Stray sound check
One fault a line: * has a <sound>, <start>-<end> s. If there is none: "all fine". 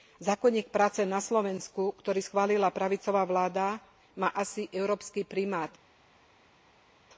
all fine